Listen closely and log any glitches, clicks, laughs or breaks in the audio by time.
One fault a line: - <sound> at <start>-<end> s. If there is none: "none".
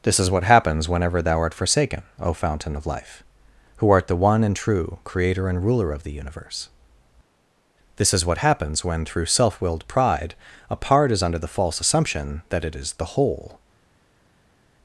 none